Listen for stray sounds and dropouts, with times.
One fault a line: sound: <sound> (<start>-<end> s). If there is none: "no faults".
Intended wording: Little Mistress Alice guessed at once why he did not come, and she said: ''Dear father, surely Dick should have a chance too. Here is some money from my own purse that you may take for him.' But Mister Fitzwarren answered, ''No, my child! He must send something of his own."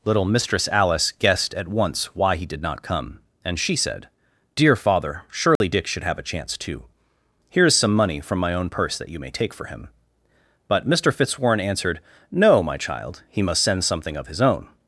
sound: dropout (5.6-5.6 s)